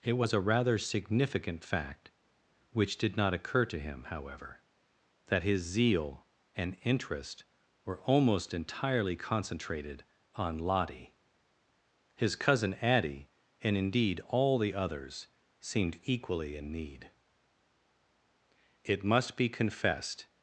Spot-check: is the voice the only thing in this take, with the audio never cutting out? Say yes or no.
yes